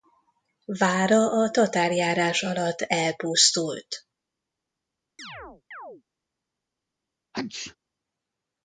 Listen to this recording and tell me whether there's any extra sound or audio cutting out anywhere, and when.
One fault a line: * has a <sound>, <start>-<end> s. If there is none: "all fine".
* has a chirp, 5.2-6.0 s
* has a sneeze, 7.3-7.8 s